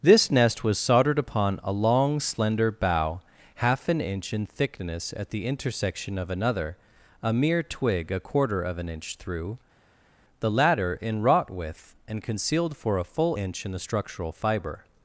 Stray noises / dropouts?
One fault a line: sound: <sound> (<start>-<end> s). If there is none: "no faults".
no faults